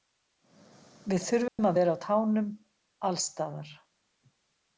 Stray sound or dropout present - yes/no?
yes